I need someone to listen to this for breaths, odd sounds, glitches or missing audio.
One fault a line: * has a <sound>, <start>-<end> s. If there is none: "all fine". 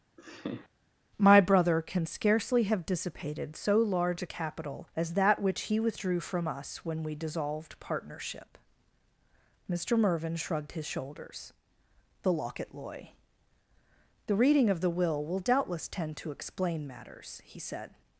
* has a laugh, 0.2-0.7 s